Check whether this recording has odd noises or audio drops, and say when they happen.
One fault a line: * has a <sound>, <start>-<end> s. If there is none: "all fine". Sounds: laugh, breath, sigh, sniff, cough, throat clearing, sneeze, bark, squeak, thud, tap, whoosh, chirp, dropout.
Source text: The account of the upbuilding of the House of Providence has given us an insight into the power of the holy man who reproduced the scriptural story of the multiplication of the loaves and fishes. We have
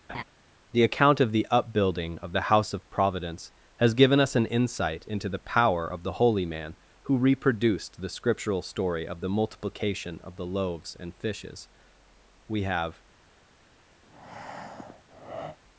* has a laugh, 0.1-0.2 s
* has a breath, 14.0-15.6 s